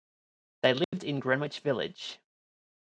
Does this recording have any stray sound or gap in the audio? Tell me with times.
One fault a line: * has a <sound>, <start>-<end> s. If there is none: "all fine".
* has a dropout, 0.8-0.9 s